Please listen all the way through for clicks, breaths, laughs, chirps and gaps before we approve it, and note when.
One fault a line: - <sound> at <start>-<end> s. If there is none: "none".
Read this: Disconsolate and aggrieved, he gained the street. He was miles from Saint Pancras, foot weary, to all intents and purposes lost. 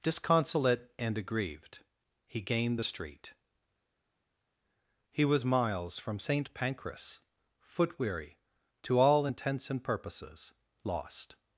none